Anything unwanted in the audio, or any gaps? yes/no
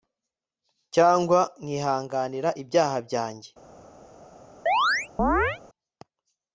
yes